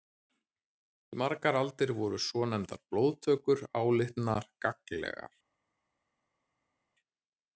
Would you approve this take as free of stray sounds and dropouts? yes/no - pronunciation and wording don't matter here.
yes